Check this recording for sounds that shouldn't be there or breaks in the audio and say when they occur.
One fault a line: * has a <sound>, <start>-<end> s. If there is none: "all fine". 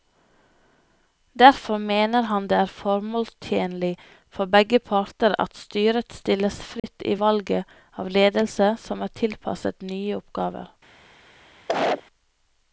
* has a dropout, 6.8-6.8 s
* has a cough, 11.7-12.0 s